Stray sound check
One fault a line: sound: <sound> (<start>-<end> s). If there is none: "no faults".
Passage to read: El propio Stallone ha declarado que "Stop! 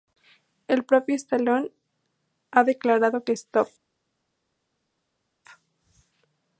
no faults